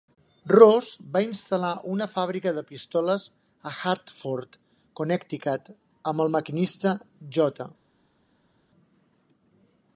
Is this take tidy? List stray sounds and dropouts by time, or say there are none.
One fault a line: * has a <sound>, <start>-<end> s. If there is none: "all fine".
all fine